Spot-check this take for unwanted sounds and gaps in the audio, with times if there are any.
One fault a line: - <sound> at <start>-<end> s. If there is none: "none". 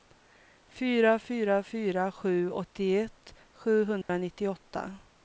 - dropout at 4.0-4.1 s